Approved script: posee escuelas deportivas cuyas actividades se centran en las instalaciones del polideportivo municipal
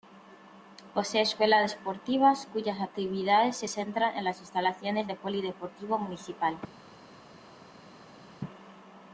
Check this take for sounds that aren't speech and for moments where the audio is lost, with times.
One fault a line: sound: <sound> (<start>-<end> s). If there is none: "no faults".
no faults